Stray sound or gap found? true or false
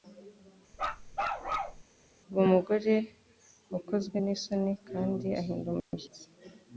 true